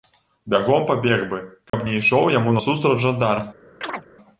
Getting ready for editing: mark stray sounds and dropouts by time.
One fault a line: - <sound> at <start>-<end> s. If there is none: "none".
- dropout at 1.7-1.7 s
- chirp at 3.8-4.1 s